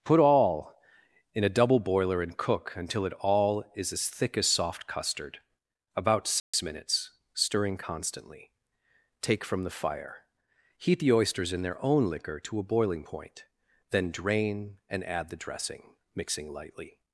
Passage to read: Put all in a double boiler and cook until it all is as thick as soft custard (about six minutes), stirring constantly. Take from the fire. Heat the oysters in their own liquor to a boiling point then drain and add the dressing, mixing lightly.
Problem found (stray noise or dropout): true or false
true